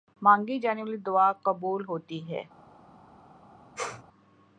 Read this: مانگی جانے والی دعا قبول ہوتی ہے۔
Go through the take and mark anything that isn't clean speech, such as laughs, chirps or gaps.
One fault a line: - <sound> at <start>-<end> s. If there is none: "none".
- sneeze at 3.8-4.0 s